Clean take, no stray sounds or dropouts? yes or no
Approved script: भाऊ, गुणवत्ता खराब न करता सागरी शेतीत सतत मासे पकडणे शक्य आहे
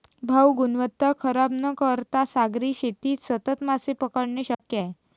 no